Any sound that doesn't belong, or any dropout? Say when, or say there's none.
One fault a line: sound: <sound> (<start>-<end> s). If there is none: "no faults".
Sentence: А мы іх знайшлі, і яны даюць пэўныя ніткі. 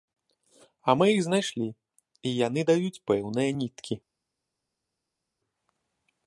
no faults